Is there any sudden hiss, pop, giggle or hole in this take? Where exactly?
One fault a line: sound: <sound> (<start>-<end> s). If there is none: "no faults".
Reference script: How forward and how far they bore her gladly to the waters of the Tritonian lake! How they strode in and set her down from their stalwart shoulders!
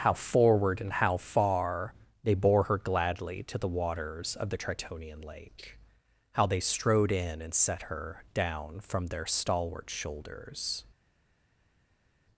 no faults